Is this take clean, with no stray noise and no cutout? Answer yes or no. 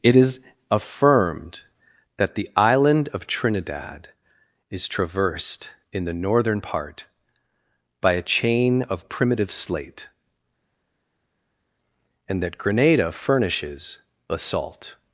yes